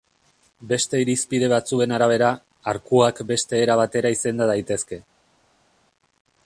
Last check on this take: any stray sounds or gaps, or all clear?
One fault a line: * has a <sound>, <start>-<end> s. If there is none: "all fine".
all fine